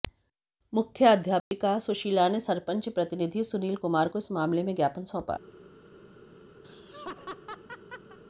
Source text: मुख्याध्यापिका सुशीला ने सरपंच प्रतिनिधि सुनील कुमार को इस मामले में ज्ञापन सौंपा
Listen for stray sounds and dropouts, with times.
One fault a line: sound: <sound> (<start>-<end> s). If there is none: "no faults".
sound: dropout (1.4-1.5 s)
sound: laugh (6.6-8.2 s)